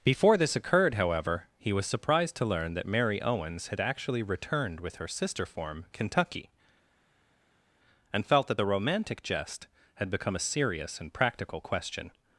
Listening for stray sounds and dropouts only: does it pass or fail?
pass